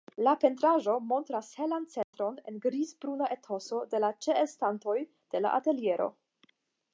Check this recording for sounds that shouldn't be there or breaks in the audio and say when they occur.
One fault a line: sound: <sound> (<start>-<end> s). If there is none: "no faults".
sound: dropout (2.0-2.1 s)